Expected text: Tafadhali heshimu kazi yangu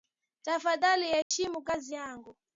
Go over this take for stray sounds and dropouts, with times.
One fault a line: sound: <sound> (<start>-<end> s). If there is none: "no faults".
sound: dropout (1.2-1.3 s)